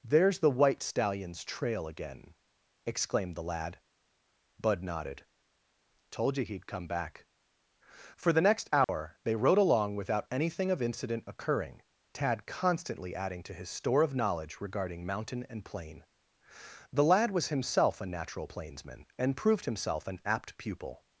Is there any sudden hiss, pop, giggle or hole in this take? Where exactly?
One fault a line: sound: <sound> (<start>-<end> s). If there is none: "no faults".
sound: dropout (8.8-8.9 s)